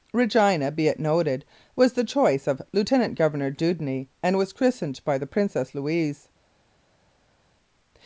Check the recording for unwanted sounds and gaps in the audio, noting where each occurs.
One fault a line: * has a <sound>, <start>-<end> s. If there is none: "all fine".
all fine